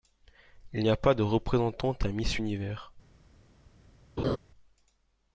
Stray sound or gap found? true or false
true